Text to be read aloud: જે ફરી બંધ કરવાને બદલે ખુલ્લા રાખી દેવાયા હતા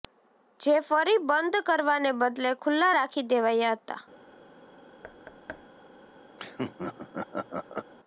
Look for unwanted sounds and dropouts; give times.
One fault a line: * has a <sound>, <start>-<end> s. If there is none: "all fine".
* has a thud, 5.0-5.7 s
* has a laugh, 6.4-7.9 s